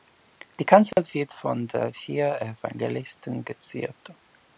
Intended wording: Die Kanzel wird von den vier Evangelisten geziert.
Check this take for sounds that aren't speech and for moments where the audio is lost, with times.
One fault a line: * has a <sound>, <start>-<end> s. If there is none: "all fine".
* has a dropout, 0.9-1.0 s